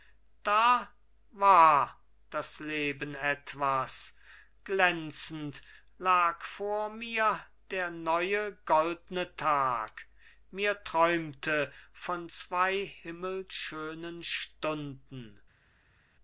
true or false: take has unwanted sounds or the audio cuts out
false